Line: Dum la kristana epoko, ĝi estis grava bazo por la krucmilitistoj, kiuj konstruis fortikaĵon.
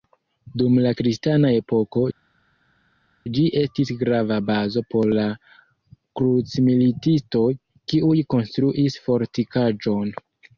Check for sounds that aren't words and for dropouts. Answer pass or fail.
pass